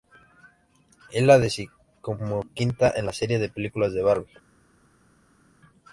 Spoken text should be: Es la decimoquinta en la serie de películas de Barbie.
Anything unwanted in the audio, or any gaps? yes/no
no